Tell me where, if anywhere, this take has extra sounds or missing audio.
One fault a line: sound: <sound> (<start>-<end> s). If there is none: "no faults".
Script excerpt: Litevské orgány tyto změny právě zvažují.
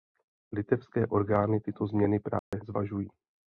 sound: dropout (2.4-2.5 s)